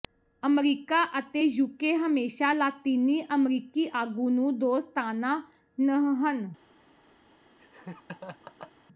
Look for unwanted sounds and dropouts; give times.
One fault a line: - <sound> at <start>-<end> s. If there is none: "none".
- laugh at 7.6-8.7 s